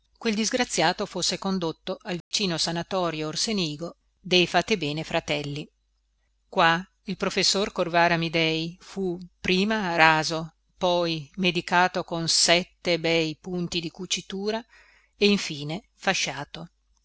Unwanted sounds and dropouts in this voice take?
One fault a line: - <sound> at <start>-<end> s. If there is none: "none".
- dropout at 2.2-2.3 s